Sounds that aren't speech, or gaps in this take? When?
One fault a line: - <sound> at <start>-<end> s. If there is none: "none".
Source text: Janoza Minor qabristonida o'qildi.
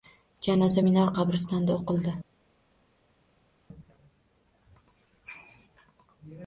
none